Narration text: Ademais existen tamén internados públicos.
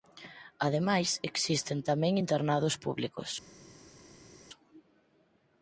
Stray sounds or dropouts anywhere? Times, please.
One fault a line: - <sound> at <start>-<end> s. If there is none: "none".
none